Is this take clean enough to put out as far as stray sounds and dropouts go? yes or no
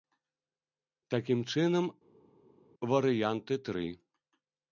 yes